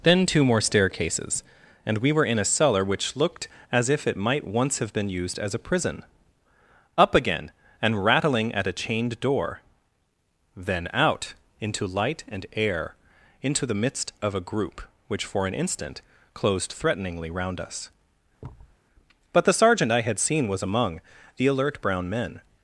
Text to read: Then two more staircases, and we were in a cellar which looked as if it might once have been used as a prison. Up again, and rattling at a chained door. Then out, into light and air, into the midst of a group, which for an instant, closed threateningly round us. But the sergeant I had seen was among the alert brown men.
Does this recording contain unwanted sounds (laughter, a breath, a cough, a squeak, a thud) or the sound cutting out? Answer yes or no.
yes